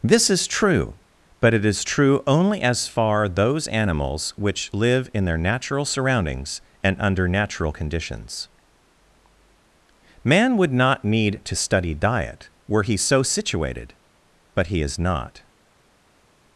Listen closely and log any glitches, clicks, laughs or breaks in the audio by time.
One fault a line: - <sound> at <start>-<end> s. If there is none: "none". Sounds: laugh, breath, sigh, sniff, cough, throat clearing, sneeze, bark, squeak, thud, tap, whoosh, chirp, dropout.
none